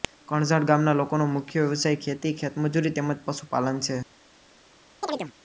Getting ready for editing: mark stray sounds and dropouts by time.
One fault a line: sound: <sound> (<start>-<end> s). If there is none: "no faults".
sound: chirp (5.0-5.3 s)